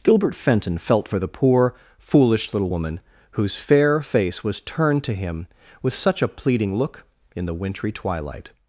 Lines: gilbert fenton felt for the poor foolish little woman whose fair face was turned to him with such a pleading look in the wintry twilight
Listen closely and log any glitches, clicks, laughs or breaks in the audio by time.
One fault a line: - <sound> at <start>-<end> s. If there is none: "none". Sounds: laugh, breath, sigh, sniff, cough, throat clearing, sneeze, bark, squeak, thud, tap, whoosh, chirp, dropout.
none